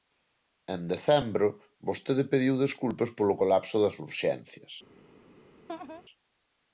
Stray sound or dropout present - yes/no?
yes